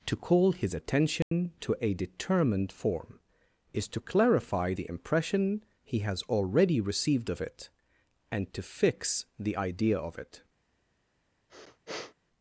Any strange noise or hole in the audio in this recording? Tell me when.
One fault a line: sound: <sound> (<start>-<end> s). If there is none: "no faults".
sound: dropout (1.2-1.3 s)
sound: sniff (11.5-12.1 s)